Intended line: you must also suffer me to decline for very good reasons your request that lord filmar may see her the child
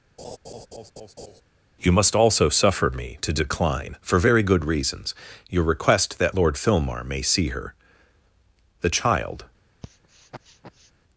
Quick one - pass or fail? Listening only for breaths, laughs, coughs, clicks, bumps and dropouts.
fail